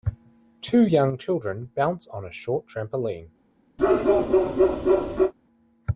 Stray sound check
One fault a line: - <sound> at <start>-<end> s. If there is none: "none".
- bark at 3.8-5.3 s